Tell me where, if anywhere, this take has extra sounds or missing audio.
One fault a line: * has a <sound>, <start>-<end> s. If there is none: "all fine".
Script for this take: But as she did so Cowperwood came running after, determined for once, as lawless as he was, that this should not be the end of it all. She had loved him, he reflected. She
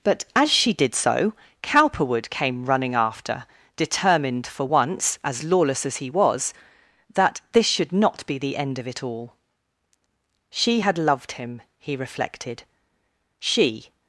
all fine